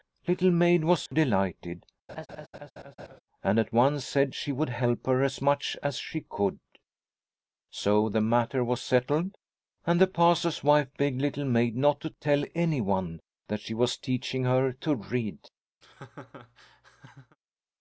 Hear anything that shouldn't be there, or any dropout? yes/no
yes